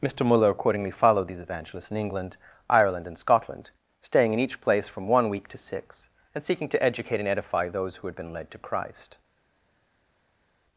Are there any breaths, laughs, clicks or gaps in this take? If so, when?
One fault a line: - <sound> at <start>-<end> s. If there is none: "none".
none